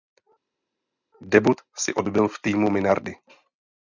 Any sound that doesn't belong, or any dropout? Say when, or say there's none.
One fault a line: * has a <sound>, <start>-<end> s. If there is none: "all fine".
all fine